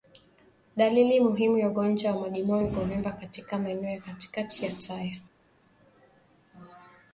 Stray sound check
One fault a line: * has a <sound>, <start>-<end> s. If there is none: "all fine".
all fine